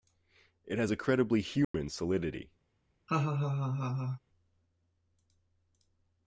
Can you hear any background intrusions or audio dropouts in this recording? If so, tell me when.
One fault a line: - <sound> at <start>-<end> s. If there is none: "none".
- dropout at 1.6-1.7 s
- laugh at 3.1-4.2 s